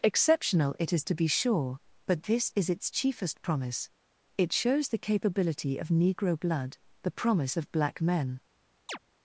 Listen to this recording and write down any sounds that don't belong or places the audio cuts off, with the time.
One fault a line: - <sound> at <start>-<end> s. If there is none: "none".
- chirp at 8.9-9.0 s